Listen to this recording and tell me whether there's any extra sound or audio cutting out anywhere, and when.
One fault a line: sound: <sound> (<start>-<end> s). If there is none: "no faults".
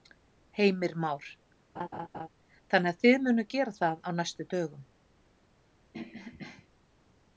sound: laugh (1.8-2.3 s)
sound: throat clearing (5.9-6.7 s)